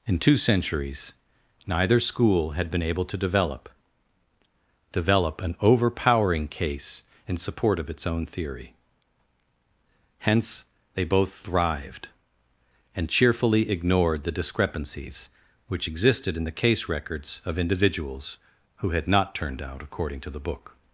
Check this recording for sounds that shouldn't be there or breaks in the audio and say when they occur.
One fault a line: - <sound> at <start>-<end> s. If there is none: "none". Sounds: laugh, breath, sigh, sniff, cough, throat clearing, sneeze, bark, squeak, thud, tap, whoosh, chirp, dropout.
none